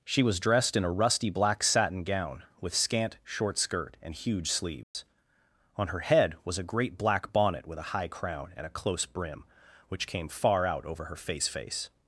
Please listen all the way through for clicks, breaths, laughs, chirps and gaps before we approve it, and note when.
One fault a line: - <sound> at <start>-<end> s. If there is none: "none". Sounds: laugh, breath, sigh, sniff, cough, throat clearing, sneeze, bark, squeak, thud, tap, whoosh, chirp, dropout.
- dropout at 4.8-4.9 s